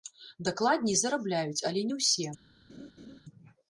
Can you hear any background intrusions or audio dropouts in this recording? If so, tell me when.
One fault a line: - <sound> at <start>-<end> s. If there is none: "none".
- laugh at 2.7-3.2 s